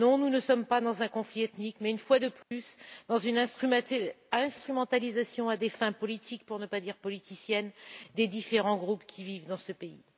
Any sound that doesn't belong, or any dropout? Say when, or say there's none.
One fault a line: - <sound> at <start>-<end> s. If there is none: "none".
- dropout at 2.4-2.5 s